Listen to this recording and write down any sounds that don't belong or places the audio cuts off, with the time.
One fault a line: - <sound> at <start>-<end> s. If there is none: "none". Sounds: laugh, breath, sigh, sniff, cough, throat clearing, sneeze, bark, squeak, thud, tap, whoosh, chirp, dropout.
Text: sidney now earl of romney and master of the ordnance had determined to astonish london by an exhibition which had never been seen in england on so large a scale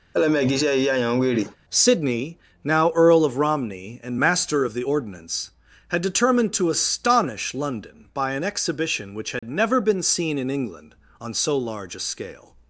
- laugh at 0.1-1.6 s
- dropout at 9.4-9.4 s